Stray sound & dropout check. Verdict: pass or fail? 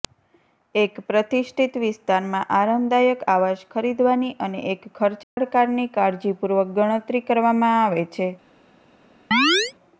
fail